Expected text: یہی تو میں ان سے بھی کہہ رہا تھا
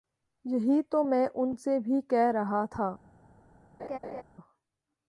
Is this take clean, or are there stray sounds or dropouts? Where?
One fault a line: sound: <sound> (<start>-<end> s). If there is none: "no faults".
sound: laugh (3.8-4.2 s)